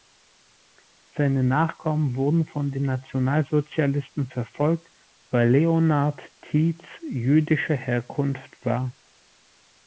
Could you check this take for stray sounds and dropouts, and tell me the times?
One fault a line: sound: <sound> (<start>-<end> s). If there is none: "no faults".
no faults